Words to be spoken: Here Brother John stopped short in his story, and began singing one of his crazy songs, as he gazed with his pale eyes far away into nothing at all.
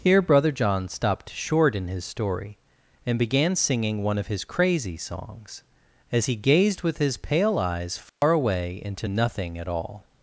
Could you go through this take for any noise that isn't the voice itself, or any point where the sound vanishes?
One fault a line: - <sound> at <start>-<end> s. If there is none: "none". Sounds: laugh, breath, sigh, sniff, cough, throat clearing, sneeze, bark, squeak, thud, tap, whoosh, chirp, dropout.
- dropout at 8.1-8.2 s